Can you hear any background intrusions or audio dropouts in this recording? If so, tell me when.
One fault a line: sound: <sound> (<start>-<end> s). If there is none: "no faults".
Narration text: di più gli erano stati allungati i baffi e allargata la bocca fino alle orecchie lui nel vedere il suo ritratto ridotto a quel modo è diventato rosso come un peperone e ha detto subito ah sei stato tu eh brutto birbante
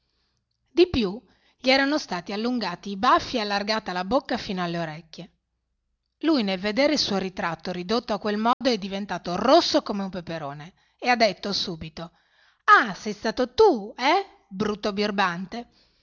sound: dropout (8.5-8.6 s)